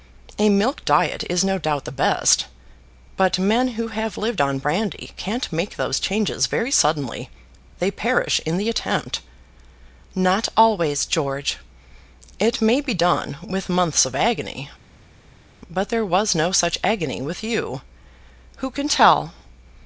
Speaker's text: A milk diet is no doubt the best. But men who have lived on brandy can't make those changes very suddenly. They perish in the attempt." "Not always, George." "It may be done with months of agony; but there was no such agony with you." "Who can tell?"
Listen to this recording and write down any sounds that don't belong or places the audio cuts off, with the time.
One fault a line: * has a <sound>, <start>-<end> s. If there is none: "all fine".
all fine